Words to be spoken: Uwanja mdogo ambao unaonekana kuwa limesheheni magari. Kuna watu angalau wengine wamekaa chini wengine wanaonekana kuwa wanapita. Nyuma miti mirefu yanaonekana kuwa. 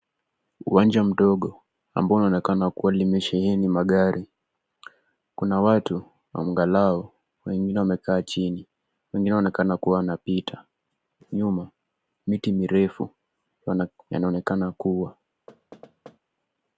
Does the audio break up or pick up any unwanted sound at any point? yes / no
yes